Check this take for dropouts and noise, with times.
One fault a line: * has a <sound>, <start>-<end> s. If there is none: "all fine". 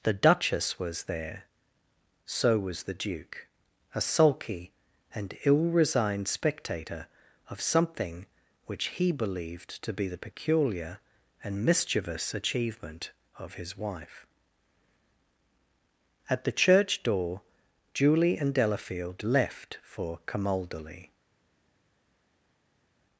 all fine